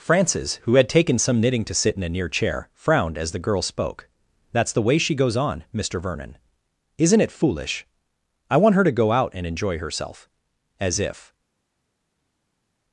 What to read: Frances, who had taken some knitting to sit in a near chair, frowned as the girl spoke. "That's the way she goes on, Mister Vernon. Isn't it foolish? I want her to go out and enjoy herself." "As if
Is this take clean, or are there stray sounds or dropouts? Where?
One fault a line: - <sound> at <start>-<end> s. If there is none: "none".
none